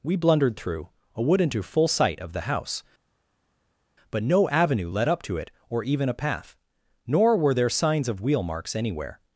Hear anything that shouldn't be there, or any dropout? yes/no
no